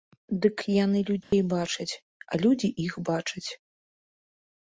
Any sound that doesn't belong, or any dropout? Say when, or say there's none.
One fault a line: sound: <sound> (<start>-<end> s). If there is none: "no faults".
sound: dropout (1.2-1.3 s)